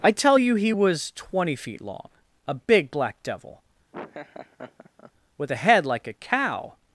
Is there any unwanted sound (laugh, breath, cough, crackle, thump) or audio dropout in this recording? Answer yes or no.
yes